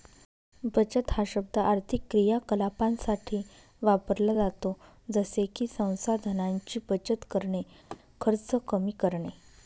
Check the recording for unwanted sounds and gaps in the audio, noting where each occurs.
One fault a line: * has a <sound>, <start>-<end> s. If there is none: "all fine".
* has a laugh, 7.9-8.0 s